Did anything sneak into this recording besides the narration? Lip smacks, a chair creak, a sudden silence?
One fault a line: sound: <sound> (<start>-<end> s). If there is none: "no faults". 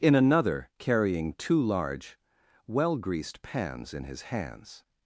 no faults